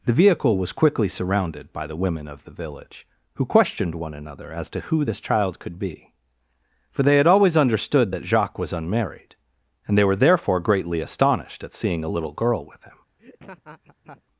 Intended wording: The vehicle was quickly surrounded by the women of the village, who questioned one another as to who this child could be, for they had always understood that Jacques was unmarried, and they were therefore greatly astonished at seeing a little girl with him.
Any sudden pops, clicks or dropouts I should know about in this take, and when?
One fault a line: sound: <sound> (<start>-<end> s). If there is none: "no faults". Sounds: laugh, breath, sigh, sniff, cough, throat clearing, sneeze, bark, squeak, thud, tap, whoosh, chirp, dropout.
sound: laugh (13.2-14.2 s)